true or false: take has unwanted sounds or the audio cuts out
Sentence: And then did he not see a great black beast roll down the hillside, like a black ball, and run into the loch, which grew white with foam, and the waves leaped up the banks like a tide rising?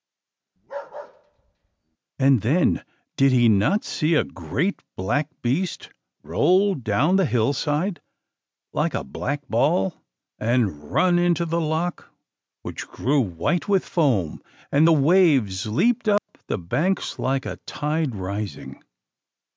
true